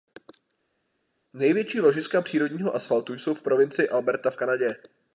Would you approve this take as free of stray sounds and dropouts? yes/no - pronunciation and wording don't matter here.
yes